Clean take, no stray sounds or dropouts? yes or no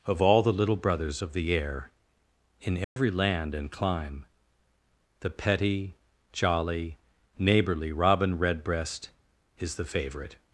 no